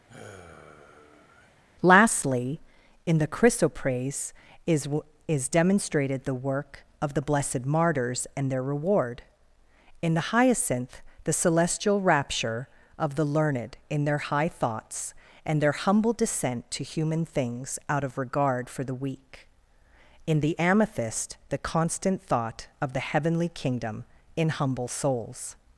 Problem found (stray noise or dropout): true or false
true